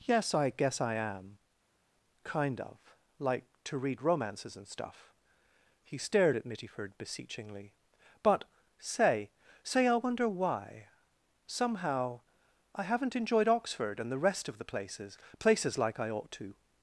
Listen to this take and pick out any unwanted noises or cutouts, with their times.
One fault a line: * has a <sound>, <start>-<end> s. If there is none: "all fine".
all fine